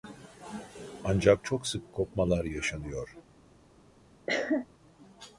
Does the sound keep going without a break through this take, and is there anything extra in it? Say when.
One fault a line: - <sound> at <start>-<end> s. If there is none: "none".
- cough at 4.3-4.7 s